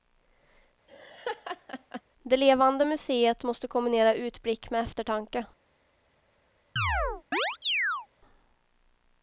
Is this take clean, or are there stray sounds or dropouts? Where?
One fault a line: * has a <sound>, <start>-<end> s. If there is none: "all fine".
* has a laugh, 0.9-2.0 s
* has a chirp, 6.8-8.1 s